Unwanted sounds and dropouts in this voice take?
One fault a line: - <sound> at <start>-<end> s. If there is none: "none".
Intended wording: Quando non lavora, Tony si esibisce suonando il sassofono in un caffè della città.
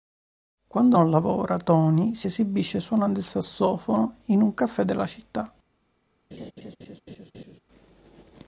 - laugh at 6.3-7.6 s